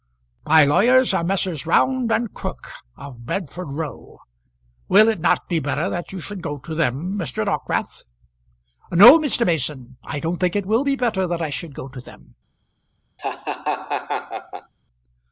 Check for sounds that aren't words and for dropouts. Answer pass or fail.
fail